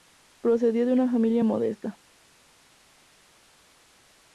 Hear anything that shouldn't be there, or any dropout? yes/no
no